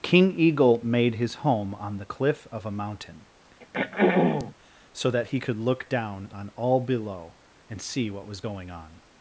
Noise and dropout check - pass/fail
fail